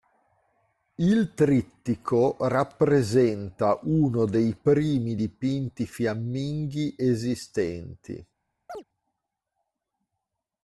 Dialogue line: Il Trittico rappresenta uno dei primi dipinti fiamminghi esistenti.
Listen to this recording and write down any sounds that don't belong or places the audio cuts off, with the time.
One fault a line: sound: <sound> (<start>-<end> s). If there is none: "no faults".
sound: chirp (8.7-8.8 s)